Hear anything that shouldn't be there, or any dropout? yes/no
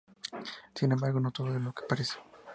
no